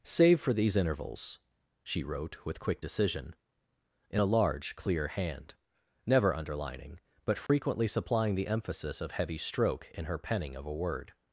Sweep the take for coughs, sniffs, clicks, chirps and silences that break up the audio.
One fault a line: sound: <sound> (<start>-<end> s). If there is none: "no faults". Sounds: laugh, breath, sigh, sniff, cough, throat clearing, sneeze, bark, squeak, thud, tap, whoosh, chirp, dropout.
sound: dropout (7.5-7.5 s)